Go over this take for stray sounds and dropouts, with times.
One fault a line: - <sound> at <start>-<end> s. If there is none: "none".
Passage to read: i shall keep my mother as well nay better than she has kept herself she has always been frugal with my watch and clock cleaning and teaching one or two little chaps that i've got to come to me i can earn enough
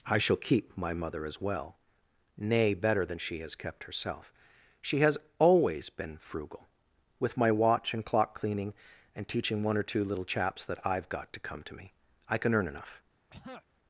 - throat clearing at 13.3-13.7 s